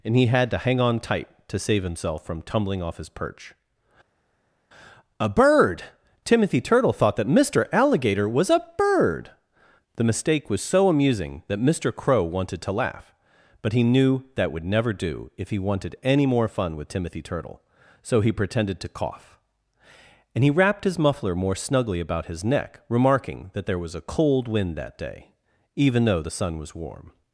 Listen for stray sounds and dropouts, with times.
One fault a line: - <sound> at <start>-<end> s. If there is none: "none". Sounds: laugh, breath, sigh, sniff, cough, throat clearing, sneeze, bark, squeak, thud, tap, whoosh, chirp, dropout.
none